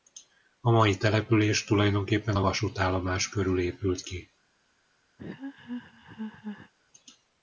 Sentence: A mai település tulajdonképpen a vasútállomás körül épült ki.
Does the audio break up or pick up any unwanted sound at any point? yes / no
yes